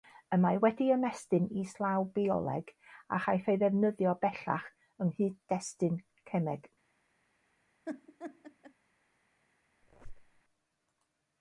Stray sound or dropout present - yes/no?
yes